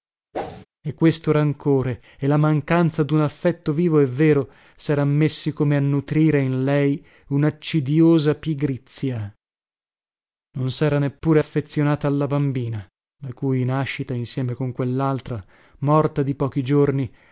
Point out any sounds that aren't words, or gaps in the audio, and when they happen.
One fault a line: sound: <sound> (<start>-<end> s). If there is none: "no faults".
sound: whoosh (0.3-0.7 s)